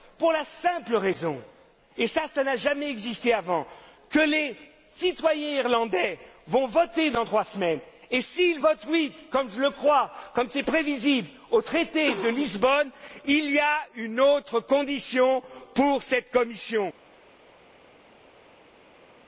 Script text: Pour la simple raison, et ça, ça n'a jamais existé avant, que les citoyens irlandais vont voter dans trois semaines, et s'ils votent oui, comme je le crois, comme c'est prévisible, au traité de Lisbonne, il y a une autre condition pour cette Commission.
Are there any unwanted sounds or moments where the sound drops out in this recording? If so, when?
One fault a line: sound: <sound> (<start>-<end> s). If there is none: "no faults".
no faults